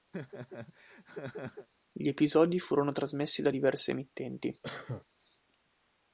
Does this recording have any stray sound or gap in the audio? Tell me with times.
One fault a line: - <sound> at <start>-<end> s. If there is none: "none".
- laugh at 0.1-1.7 s
- cough at 4.6-5.1 s